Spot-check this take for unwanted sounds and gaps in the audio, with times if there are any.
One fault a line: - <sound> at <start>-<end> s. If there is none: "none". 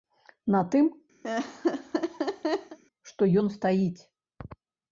- laugh at 1.2-2.8 s